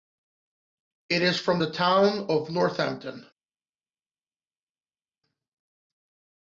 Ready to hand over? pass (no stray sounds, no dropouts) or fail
pass